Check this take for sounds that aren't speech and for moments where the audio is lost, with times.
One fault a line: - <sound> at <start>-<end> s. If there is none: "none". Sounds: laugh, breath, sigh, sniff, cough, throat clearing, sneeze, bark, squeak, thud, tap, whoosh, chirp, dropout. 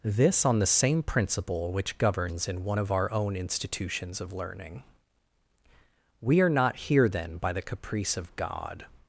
none